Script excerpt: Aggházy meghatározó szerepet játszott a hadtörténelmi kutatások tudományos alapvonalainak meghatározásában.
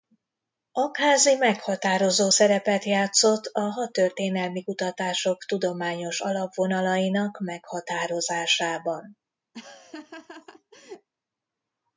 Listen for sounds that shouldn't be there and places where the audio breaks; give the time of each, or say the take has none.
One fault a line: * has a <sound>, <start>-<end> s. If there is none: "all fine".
* has a laugh, 9.5-11.1 s